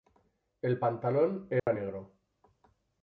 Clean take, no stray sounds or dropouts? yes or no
no